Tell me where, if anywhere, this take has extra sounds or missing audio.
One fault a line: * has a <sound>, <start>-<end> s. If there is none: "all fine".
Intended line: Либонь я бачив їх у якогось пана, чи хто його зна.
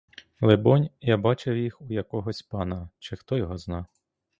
all fine